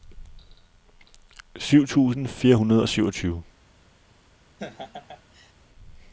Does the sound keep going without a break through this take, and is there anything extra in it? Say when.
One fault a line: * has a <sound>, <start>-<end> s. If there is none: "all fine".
* has a laugh, 4.6-5.5 s